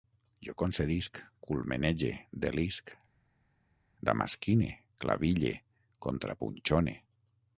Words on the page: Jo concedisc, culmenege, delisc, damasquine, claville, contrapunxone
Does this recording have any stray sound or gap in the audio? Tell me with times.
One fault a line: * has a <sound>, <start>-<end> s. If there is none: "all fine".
all fine